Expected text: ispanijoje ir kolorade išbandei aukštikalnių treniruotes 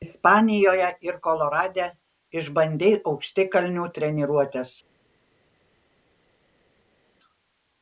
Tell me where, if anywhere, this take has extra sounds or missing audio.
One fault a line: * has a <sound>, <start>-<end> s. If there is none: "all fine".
all fine